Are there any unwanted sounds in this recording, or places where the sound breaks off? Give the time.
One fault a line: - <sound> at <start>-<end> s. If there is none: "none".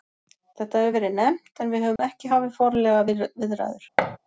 - dropout at 2.0-2.0 s
- thud at 4.0-4.2 s